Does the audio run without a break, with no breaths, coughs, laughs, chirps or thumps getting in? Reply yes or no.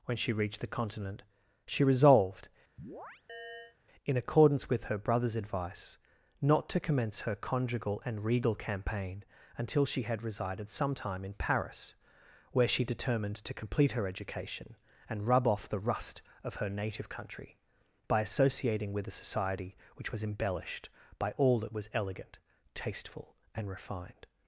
no